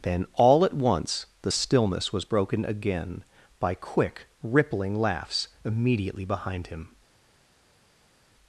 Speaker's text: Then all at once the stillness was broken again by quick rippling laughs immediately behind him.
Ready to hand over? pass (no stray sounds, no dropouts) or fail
pass